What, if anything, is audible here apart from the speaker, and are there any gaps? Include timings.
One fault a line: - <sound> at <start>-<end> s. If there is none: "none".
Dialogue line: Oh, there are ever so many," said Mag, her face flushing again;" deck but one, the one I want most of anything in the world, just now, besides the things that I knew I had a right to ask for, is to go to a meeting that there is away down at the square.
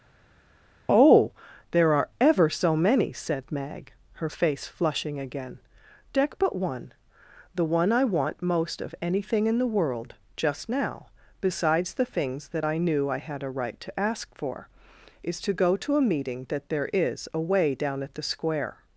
none